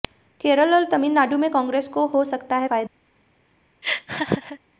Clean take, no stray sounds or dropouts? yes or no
no